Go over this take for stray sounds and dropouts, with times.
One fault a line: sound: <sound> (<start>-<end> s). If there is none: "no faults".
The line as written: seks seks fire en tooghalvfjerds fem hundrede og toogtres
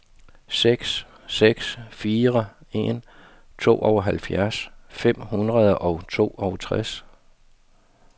no faults